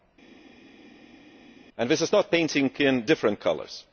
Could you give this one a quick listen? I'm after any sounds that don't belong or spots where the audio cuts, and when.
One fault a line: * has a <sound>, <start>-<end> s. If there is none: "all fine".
all fine